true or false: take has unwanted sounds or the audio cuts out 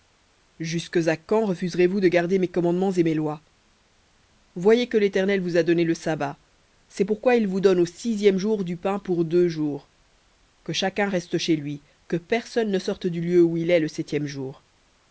false